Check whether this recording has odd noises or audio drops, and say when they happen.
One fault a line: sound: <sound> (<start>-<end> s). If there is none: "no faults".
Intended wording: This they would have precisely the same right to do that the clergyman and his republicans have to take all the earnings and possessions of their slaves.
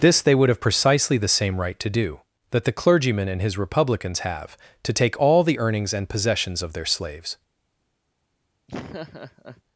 sound: laugh (8.7-9.6 s)